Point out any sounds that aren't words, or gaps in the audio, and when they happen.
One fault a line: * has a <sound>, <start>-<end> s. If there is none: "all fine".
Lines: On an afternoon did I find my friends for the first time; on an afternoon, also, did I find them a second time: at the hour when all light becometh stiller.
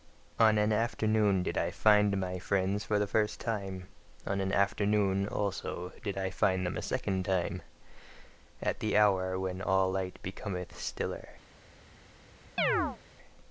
* has a chirp, 12.6-13.0 s